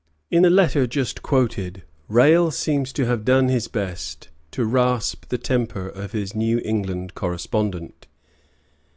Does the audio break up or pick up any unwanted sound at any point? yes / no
no